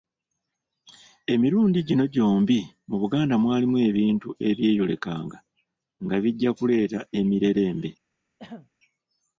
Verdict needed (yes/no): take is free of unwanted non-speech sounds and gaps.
no